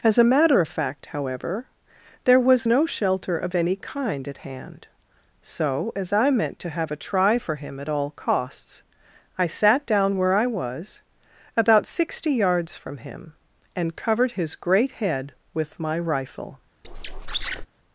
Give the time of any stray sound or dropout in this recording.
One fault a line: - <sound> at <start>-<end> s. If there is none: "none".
- squeak at 16.8-17.7 s